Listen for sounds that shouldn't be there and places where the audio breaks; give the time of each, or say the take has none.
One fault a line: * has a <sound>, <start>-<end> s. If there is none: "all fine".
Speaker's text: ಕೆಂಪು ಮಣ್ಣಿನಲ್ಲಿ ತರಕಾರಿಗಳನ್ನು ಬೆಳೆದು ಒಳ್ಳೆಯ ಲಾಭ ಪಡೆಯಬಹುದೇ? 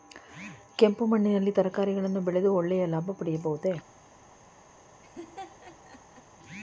* has a laugh, 5.0-6.2 s